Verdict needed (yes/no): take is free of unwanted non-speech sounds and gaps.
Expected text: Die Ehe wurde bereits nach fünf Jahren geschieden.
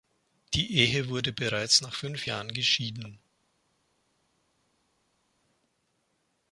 yes